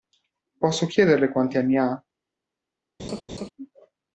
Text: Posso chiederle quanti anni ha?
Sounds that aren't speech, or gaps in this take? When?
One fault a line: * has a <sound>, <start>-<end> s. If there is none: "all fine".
* has a laugh, 3.0-3.5 s